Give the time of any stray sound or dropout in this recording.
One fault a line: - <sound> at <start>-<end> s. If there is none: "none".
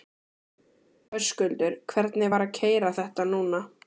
none